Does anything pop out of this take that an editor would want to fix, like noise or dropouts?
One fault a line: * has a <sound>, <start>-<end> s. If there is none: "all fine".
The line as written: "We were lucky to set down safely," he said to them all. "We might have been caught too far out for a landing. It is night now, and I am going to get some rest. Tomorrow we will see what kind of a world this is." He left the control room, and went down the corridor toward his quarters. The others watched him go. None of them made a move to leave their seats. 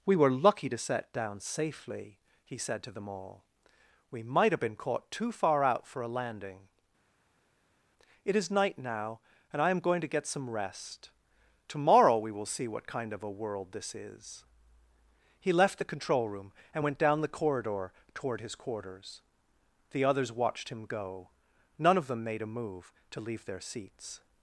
all fine